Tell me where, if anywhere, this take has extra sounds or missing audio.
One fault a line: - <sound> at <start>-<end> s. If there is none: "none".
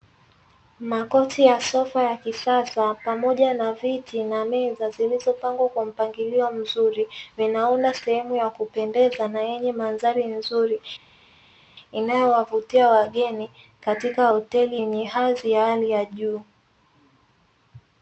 none